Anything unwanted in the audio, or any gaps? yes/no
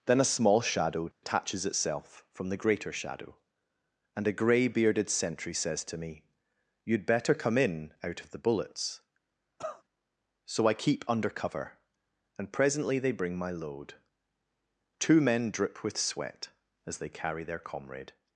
yes